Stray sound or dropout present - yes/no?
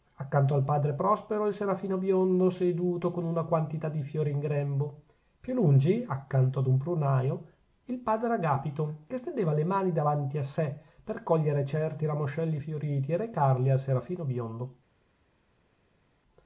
no